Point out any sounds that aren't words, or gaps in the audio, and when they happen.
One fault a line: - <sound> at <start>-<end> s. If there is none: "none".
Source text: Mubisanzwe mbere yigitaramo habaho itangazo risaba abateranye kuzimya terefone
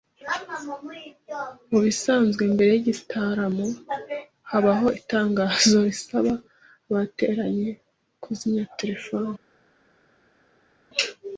none